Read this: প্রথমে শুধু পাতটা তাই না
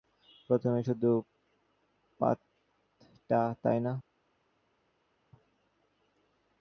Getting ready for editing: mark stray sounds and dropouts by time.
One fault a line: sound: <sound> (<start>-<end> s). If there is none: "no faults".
no faults